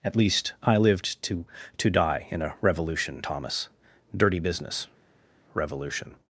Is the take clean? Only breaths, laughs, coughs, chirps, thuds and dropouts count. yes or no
yes